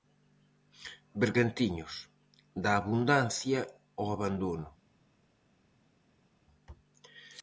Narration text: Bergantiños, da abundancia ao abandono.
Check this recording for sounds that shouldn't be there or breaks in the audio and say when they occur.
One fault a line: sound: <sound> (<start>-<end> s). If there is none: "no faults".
no faults